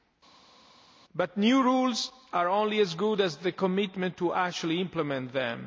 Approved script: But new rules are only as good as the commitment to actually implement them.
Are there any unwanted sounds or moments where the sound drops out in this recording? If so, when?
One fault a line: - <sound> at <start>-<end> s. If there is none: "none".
none